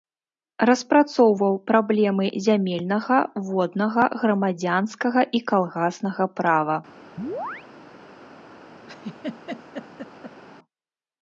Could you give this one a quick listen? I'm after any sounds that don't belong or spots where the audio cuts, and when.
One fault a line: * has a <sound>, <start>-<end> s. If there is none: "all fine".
* has a chirp, 7.2-7.7 s
* has a laugh, 8.9-10.4 s